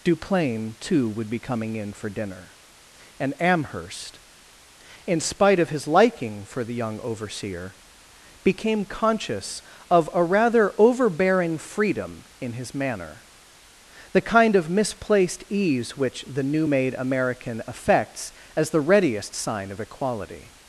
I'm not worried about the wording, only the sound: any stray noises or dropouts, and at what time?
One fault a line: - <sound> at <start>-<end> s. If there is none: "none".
none